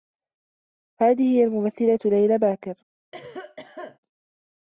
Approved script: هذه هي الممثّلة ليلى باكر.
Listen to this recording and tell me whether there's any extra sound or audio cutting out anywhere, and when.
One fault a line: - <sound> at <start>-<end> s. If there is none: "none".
- cough at 3.1-4.0 s